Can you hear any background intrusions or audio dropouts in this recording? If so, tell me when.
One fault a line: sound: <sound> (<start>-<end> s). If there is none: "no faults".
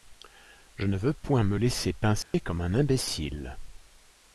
sound: dropout (2.2-2.3 s)